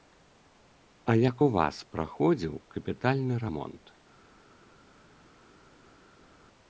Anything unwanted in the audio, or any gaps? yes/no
no